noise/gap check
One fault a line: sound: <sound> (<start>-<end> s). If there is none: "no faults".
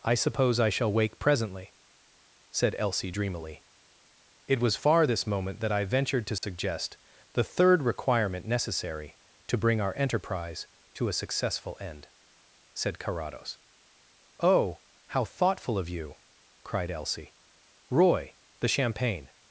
sound: dropout (6.4-6.4 s)